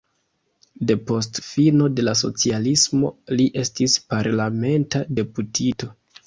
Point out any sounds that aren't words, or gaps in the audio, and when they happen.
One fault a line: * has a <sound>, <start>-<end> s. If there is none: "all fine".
all fine